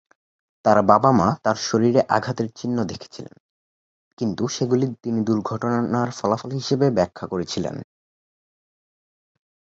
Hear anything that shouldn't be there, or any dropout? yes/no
no